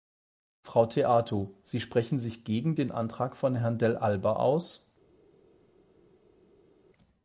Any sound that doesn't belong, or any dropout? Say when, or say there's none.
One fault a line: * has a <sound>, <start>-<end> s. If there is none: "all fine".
all fine